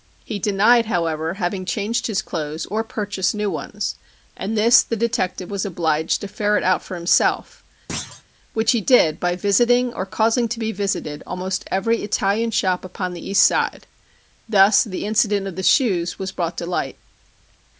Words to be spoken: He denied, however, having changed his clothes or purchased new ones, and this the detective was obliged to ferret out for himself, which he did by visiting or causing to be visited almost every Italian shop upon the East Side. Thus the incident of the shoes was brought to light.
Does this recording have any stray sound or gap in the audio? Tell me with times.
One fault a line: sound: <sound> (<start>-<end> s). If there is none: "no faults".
sound: thud (7.9-8.2 s)